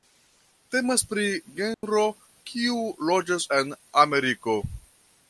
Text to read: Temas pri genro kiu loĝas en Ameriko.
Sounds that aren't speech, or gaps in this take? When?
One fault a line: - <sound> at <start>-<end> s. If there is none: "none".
- dropout at 1.7-1.8 s